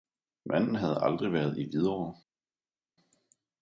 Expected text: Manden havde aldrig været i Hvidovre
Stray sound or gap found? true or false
false